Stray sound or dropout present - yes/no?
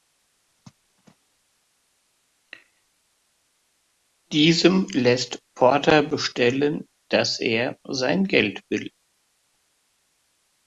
no